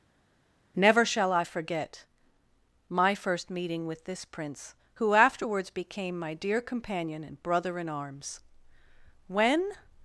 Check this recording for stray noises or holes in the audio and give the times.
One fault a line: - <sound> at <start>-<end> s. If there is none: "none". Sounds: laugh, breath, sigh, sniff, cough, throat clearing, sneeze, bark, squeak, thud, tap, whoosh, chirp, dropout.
none